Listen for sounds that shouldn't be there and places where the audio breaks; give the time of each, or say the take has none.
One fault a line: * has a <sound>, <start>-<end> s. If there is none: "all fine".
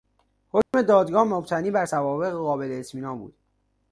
* has a dropout, 0.6-0.7 s